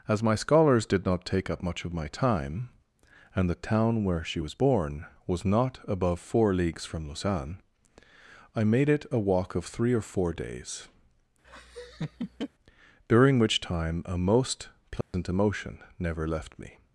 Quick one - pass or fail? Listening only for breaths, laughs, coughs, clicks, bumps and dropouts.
fail